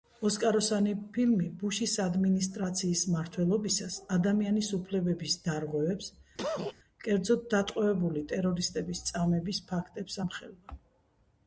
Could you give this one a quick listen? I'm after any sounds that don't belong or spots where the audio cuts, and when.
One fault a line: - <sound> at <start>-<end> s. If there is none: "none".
- cough at 6.4-6.7 s